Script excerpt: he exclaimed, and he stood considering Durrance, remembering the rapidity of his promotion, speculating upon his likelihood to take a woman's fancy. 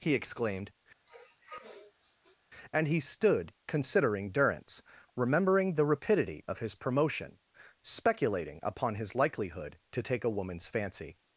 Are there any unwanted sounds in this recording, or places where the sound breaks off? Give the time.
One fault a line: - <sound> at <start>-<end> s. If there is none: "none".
- sniff at 1.1-2.4 s